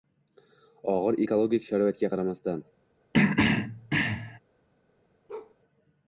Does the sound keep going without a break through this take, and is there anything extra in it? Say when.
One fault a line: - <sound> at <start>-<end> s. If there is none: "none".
- throat clearing at 3.1-4.4 s
- bark at 5.3-5.6 s